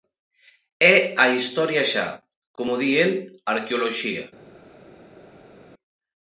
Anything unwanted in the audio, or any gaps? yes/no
no